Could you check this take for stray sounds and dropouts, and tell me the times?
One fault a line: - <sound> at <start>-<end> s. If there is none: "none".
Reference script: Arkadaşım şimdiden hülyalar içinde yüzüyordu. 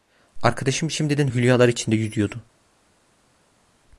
none